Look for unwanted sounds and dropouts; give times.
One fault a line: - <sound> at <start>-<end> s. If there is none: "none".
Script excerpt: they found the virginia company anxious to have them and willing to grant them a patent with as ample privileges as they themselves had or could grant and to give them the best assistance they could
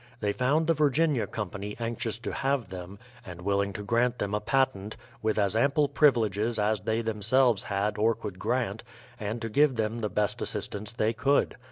none